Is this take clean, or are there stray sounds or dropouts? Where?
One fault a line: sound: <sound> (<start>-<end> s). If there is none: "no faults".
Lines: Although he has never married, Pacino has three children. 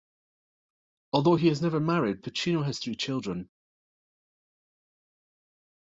no faults